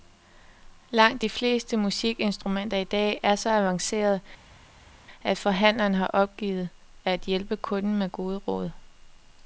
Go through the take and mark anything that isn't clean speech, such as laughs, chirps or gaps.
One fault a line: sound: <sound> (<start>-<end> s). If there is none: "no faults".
no faults